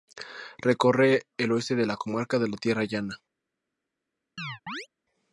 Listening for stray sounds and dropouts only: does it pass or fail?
fail